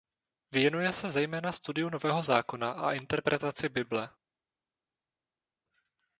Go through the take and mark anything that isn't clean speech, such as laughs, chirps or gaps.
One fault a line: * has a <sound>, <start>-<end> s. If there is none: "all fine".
all fine